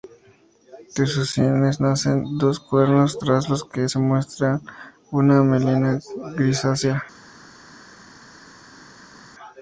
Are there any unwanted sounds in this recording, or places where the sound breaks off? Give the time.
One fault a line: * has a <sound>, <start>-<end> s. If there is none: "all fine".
all fine